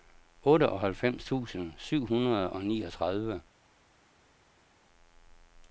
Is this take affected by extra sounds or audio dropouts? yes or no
no